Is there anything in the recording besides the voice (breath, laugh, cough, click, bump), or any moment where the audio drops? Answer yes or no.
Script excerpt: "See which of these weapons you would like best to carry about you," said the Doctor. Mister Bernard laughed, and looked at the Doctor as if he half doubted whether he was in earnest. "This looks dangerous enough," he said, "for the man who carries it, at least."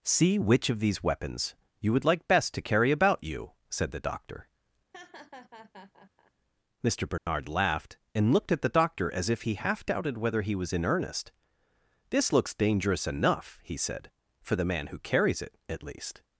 yes